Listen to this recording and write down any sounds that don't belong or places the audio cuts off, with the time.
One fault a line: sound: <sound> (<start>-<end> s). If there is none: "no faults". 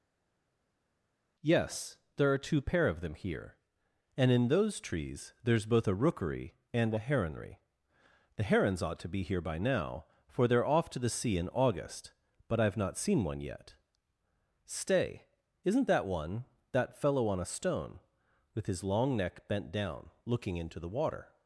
no faults